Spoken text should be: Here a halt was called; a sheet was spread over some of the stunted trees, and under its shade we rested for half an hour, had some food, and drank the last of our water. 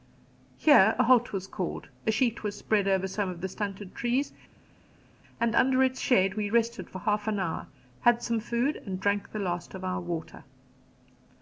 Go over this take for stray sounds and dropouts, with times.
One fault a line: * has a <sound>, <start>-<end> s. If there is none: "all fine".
all fine